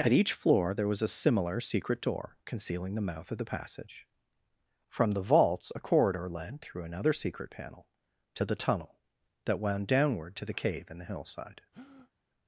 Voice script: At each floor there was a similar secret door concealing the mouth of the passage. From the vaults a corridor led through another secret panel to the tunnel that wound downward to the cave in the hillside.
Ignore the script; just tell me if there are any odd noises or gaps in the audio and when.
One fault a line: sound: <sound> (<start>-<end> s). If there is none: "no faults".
sound: breath (11.7-12.1 s)